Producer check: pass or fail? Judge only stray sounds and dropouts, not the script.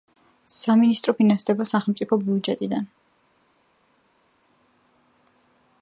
pass